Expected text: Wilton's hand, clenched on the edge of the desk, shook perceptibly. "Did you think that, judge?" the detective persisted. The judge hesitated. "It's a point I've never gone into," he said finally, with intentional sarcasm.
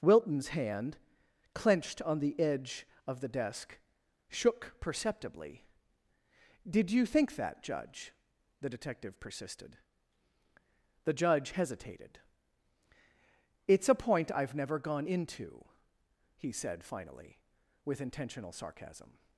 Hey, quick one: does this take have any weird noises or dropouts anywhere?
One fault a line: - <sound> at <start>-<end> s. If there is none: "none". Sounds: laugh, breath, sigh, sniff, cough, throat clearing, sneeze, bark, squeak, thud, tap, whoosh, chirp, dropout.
none